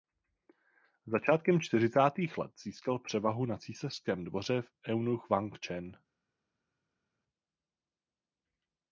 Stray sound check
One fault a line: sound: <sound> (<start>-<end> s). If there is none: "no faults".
no faults